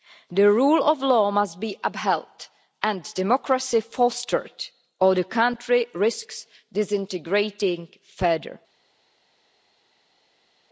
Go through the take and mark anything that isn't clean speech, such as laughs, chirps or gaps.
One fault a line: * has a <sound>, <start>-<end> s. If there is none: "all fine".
all fine